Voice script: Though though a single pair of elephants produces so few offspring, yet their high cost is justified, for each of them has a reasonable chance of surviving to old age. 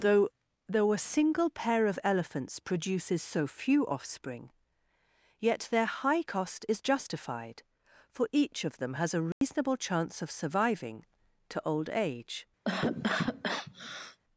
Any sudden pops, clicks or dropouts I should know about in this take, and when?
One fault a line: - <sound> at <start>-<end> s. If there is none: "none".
- dropout at 9.3-9.4 s
- cough at 12.6-14.2 s